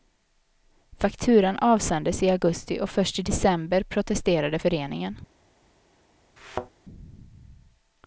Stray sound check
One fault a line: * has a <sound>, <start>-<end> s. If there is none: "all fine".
* has a thud, 6.4-6.7 s